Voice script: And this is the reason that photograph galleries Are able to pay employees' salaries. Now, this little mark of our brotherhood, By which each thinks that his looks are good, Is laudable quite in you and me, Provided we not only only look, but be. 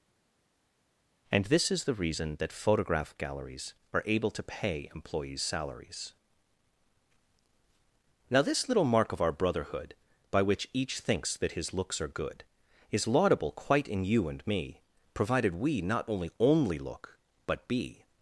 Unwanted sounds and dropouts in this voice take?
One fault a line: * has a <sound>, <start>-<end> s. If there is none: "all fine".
all fine